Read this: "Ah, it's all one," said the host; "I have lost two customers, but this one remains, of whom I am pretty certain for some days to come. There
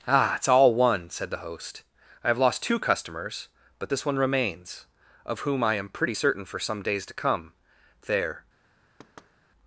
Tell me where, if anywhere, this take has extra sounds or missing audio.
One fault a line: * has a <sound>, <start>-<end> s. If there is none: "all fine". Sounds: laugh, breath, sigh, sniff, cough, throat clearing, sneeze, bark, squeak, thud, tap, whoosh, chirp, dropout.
* has a thud, 9.0-9.3 s